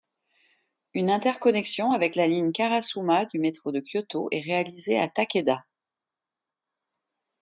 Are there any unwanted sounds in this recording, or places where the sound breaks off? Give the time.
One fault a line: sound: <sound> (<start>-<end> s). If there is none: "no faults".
no faults